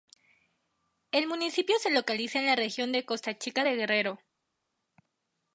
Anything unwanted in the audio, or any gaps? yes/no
no